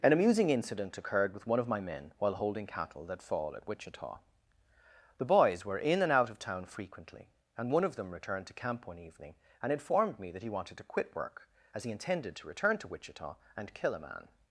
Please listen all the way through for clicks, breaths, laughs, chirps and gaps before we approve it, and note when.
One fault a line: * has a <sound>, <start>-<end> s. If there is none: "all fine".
all fine